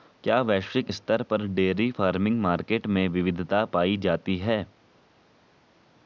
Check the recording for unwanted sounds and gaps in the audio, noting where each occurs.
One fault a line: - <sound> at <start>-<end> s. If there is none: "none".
none